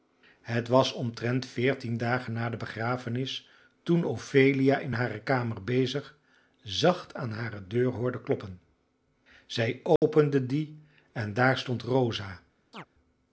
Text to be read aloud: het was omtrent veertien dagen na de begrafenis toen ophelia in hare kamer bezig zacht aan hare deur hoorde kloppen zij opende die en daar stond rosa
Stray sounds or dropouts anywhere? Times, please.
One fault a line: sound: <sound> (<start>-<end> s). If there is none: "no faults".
sound: dropout (10.0-10.0 s)
sound: chirp (12.7-12.9 s)